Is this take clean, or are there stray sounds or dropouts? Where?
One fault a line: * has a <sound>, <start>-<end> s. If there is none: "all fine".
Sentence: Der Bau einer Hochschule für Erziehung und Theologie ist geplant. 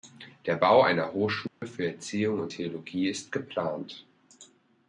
* has a dropout, 1.5-1.6 s